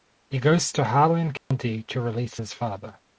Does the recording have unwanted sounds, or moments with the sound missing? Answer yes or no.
yes